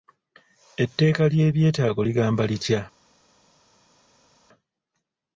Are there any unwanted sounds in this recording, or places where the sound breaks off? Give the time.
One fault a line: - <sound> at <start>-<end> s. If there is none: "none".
none